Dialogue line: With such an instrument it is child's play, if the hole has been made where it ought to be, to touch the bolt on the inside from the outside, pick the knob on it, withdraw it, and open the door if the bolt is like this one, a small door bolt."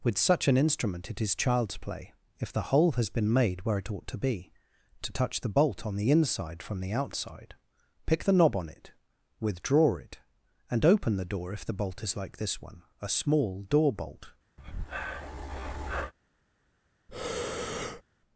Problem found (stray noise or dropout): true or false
true